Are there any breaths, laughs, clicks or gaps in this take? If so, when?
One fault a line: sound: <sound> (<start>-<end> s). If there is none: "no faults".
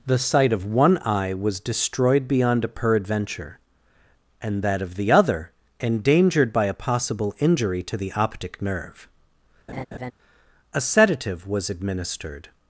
sound: laugh (9.7-10.1 s)